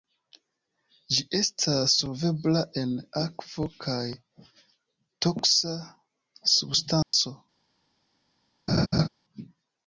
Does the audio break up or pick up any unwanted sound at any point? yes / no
yes